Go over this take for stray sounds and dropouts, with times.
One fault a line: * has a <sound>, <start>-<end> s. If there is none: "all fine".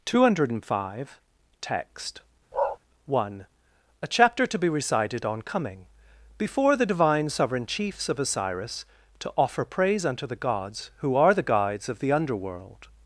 * has a bark, 2.5-2.8 s